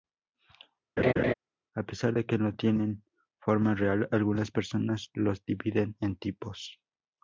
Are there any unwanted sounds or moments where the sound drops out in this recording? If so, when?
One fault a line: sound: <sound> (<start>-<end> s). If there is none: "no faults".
sound: laugh (1.0-1.3 s)